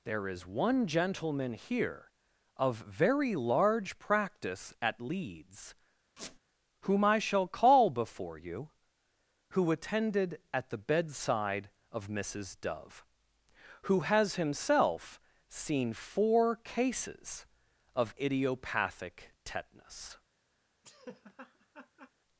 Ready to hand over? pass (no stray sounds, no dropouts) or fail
fail